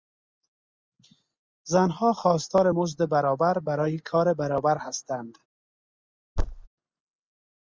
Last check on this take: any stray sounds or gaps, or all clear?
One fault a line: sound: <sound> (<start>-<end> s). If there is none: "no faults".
sound: thud (6.4-6.7 s)